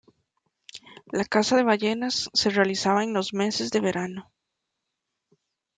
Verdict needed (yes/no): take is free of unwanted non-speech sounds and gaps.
yes